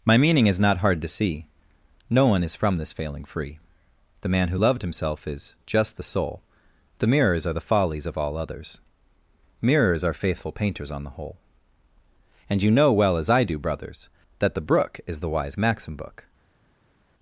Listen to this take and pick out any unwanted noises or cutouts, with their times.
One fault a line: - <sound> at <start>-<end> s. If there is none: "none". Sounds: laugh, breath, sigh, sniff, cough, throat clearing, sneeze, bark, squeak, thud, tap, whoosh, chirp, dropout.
none